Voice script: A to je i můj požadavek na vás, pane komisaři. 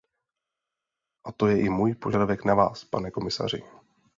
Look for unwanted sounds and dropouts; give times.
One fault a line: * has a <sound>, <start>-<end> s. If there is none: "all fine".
all fine